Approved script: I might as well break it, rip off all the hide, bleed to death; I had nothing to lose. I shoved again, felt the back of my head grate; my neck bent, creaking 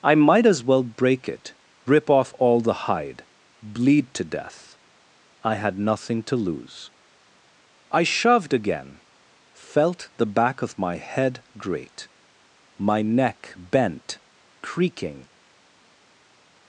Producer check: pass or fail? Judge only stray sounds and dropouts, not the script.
pass